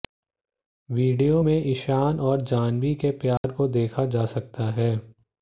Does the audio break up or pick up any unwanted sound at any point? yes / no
yes